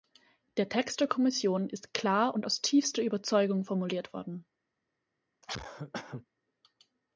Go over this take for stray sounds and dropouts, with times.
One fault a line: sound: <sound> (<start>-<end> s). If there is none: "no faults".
sound: cough (5.4-6.3 s)